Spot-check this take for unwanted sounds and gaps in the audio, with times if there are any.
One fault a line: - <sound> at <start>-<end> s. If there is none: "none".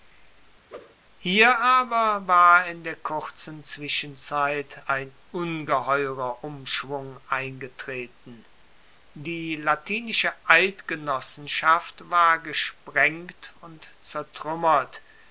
- whoosh at 0.7-1.0 s